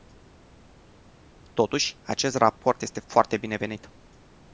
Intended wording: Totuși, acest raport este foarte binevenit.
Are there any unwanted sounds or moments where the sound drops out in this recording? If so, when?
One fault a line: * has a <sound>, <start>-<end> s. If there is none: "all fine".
all fine